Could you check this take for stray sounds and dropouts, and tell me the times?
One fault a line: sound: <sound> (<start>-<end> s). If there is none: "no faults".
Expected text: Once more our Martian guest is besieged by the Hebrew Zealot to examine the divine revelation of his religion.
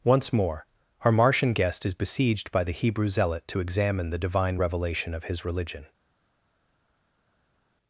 no faults